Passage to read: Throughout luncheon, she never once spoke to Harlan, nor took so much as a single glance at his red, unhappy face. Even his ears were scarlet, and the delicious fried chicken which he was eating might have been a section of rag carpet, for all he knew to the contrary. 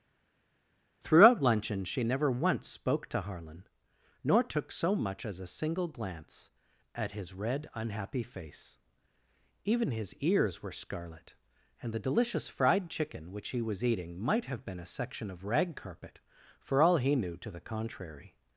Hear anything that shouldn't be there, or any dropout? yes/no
no